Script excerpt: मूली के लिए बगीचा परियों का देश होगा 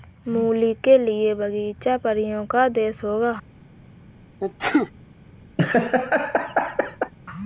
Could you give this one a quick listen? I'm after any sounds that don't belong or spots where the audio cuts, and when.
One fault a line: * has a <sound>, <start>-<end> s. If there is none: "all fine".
* has a sneeze, 4.4-4.9 s
* has a laugh, 5.6-7.1 s